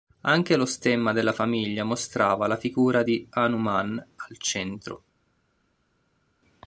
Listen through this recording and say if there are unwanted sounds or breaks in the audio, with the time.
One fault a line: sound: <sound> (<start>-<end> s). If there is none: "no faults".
no faults